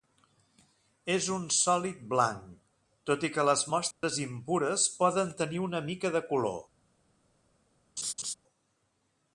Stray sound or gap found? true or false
true